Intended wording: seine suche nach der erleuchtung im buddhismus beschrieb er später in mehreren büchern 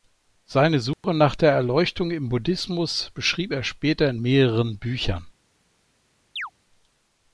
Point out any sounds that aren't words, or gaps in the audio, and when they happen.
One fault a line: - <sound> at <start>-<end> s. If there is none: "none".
- dropout at 0.9-1.0 s
- chirp at 6.4-6.5 s